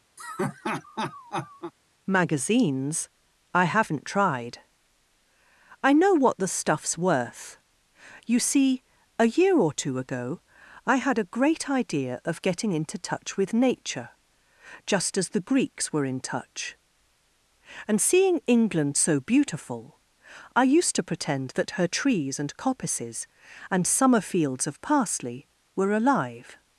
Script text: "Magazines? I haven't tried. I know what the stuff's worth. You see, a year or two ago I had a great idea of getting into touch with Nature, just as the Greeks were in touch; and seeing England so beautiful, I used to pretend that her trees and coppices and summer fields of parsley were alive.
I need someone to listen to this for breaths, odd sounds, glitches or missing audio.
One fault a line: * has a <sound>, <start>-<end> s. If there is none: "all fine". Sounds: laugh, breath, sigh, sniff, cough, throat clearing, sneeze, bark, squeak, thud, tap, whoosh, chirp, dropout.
* has a laugh, 0.2-1.7 s